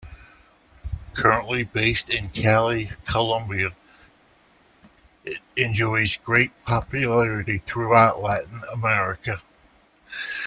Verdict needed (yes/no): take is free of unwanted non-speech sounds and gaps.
yes